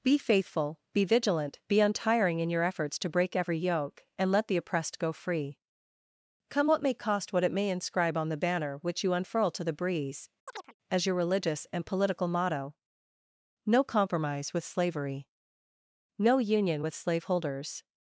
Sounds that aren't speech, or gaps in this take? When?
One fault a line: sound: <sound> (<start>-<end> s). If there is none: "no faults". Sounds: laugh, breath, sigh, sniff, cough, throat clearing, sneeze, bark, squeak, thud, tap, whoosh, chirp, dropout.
sound: chirp (10.5-10.7 s)